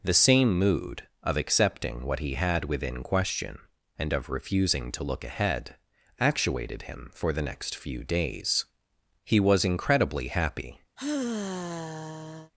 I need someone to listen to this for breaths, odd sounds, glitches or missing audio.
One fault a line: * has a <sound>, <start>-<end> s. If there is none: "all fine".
* has a sigh, 11.0-12.5 s